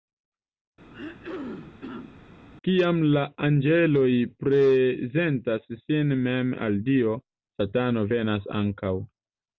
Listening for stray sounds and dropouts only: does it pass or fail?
fail